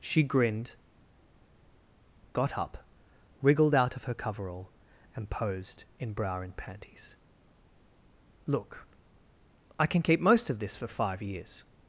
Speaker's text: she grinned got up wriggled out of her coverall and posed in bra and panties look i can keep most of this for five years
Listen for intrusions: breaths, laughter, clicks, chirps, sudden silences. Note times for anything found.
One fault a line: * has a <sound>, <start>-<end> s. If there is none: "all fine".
all fine